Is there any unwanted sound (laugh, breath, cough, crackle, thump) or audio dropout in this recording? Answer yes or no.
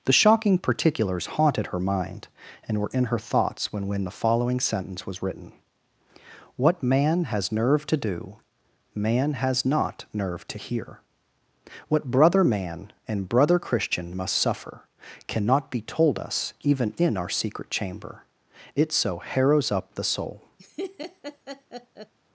yes